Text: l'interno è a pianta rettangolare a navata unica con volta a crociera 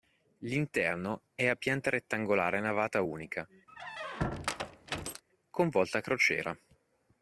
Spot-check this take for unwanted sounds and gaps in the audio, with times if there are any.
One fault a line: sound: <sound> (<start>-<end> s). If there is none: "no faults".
sound: squeak (3.7-5.2 s)